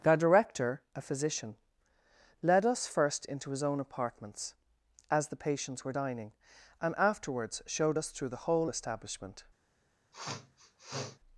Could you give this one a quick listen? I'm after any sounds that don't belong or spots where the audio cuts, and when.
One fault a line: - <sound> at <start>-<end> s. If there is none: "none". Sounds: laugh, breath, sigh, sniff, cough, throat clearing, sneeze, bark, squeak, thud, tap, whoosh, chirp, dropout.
- sniff at 10.1-11.2 s